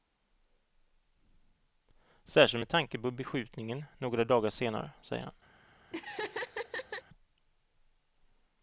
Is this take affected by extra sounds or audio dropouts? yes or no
yes